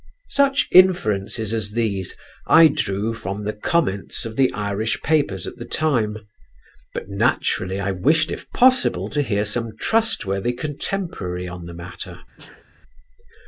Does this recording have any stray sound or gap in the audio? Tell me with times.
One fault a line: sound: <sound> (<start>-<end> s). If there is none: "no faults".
sound: sneeze (12.4-12.7 s)